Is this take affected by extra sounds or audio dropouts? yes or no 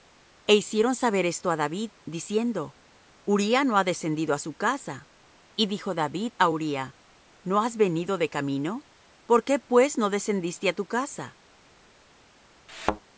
yes